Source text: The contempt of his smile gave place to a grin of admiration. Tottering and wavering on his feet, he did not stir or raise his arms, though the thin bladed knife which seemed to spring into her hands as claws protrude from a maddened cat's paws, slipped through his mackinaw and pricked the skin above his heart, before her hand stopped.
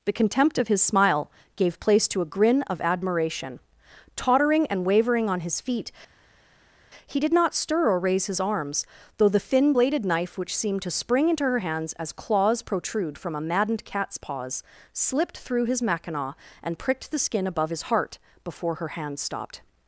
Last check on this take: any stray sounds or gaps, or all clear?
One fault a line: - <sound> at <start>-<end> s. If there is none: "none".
none